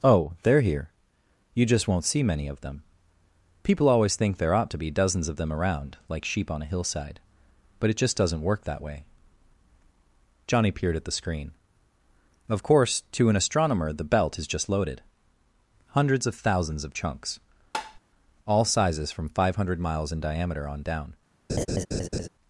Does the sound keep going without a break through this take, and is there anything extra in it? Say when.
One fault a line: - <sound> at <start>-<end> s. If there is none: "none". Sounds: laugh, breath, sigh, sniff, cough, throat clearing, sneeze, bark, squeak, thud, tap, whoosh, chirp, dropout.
- tap at 17.7-18.0 s
- laugh at 21.5-22.3 s